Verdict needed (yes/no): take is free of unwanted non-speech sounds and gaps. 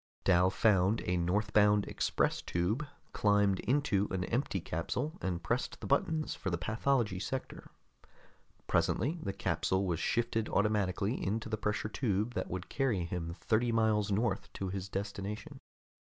yes